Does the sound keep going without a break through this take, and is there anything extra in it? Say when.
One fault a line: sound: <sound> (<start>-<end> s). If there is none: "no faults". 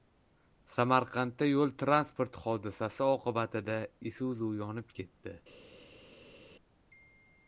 no faults